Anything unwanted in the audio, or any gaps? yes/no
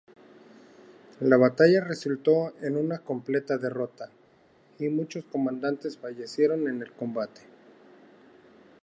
no